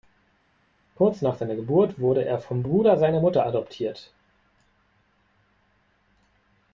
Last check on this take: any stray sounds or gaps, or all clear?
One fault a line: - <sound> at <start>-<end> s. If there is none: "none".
none